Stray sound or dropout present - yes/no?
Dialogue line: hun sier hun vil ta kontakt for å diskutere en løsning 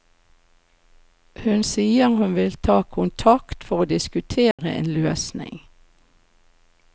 yes